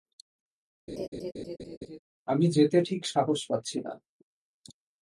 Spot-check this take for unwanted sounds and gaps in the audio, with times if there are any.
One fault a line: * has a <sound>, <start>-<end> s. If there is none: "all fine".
* has a laugh, 0.9-2.0 s